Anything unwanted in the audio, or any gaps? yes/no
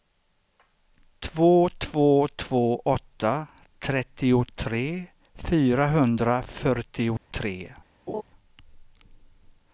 yes